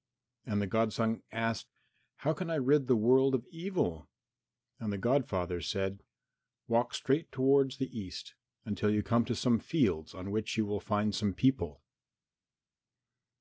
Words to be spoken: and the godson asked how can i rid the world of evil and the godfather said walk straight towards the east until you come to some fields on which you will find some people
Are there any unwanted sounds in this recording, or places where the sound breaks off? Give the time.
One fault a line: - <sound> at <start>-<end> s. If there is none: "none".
none